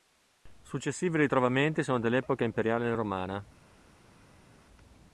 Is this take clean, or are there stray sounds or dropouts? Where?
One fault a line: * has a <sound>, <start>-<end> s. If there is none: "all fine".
all fine